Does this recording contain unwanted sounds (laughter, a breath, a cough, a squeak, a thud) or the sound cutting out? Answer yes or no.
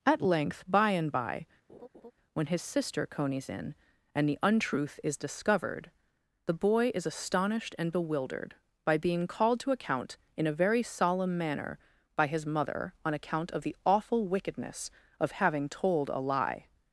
yes